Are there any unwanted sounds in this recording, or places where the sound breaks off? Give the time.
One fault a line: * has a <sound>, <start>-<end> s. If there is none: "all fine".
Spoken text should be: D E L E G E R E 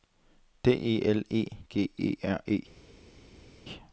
all fine